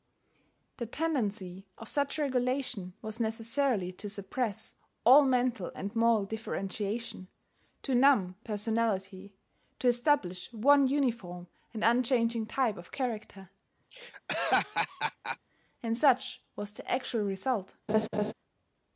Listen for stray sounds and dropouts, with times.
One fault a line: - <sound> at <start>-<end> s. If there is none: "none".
- laugh at 13.9-15.4 s
- laugh at 17.9-18.3 s